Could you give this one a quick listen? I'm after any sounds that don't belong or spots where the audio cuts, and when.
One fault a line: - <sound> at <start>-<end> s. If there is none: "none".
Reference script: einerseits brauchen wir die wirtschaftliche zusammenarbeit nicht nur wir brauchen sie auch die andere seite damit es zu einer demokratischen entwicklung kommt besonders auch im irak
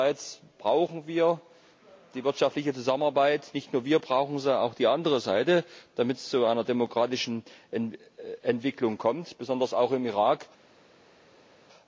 none